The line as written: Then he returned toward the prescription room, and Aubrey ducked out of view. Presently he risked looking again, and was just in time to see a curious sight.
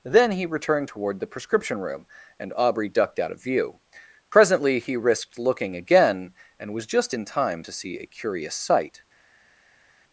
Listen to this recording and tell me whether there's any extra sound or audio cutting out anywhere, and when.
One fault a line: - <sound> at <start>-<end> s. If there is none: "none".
none